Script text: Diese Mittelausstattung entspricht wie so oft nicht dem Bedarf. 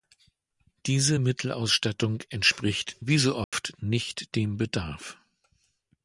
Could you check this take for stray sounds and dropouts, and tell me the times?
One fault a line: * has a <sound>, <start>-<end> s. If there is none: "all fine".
* has a dropout, 3.4-3.5 s